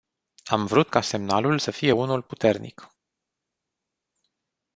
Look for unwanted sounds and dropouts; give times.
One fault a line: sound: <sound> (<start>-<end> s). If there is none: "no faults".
no faults